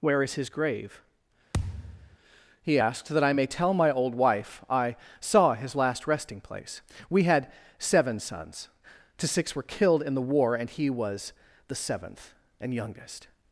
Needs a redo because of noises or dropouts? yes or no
yes